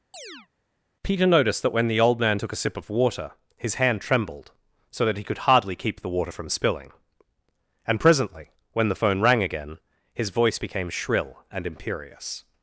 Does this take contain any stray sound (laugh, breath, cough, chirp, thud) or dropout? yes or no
yes